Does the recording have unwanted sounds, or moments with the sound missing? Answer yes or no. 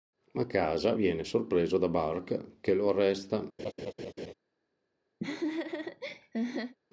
yes